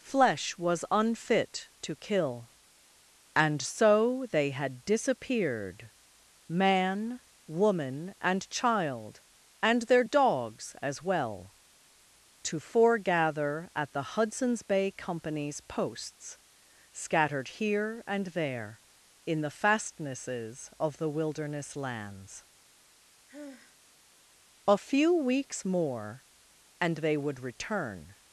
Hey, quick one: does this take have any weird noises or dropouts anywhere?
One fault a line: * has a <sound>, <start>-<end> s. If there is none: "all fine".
* has a sigh, 23.3-23.8 s